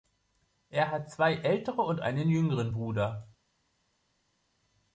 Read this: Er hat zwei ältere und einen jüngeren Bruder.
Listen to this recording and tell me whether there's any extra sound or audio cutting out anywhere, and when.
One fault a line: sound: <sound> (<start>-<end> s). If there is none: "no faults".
no faults